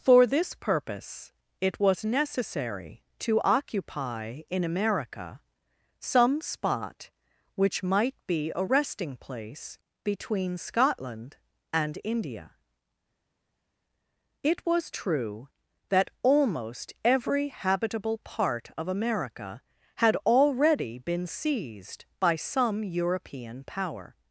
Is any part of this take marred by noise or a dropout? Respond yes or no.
no